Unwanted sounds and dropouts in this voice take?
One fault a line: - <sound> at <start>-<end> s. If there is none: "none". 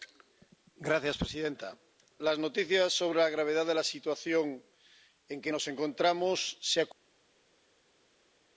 none